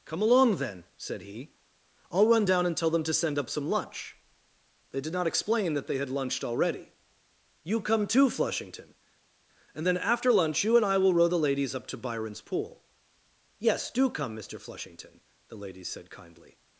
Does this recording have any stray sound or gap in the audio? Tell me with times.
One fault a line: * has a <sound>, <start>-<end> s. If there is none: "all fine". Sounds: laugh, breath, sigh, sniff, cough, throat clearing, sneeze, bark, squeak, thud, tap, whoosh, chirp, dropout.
all fine